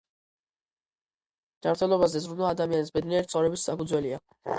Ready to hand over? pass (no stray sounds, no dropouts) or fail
pass